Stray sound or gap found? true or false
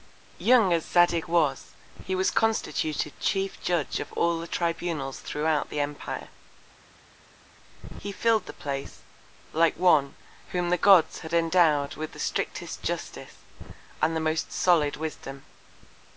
false